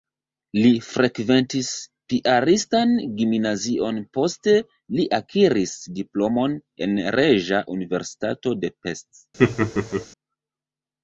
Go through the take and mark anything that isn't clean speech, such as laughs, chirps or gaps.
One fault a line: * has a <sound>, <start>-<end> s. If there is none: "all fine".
* has a laugh, 9.4-10.1 s